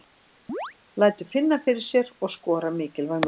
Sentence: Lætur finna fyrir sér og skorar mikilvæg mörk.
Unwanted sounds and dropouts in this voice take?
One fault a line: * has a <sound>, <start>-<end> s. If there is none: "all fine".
* has a chirp, 0.5-0.7 s